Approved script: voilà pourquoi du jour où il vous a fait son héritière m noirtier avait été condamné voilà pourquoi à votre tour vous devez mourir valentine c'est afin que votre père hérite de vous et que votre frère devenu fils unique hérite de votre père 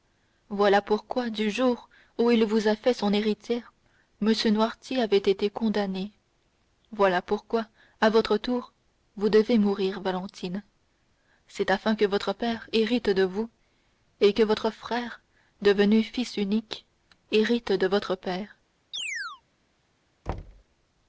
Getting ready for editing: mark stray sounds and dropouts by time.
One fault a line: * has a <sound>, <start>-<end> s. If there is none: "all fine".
* has a chirp, 18.9-19.4 s
* has a thud, 20.3-20.6 s